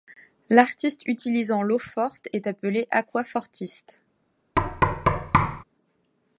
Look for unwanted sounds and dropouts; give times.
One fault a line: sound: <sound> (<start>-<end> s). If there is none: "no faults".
sound: thud (4.6-5.6 s)